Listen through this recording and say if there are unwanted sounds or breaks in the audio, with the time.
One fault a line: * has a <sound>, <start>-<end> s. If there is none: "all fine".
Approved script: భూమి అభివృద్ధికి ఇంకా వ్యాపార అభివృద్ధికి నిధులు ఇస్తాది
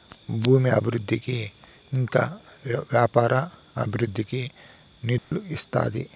* has a dropout, 5.2-5.3 s